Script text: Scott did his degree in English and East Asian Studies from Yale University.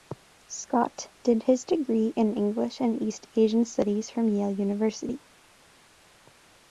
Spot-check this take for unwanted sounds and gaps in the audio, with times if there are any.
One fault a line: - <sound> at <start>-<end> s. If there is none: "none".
none